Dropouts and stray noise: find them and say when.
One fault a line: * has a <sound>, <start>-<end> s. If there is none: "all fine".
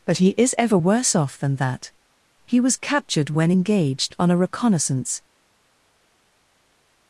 all fine